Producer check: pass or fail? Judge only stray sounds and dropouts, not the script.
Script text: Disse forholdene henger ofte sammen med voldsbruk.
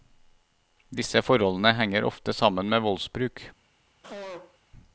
fail